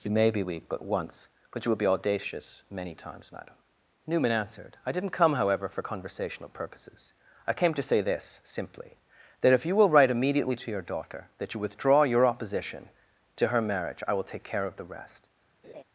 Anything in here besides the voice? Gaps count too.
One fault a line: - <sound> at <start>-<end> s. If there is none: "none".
- laugh at 15.6-15.8 s